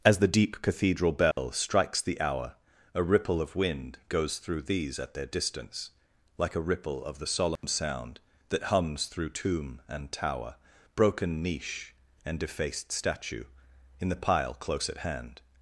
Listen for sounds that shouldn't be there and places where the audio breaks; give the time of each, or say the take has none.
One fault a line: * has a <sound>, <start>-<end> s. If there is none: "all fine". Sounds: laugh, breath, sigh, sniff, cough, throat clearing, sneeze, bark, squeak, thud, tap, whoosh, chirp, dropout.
* has a dropout, 1.3-1.4 s
* has a dropout, 7.6-7.6 s